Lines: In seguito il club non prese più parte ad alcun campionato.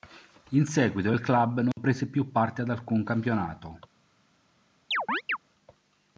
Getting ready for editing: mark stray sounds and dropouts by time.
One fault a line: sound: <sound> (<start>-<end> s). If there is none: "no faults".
sound: dropout (1.7-1.8 s)
sound: chirp (4.9-5.4 s)